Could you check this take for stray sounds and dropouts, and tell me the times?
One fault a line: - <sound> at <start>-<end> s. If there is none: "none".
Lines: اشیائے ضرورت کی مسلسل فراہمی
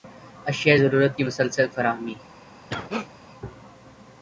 - cough at 2.7-3.1 s